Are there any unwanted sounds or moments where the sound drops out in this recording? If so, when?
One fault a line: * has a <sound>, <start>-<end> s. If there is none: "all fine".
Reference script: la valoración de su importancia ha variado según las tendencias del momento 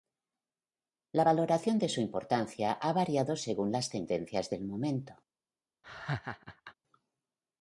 * has a laugh, 5.8-6.7 s